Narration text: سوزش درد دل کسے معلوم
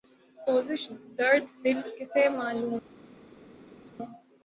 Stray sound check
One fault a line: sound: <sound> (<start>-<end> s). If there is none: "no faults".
no faults